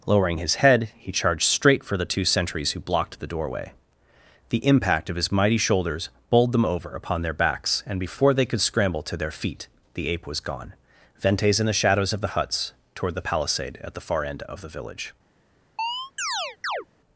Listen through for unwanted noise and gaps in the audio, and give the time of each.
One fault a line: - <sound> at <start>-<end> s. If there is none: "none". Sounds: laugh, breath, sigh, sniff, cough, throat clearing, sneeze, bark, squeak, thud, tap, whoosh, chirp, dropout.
- chirp at 15.8-16.9 s